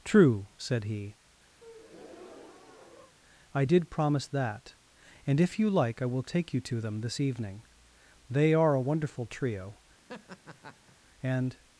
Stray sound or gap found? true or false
true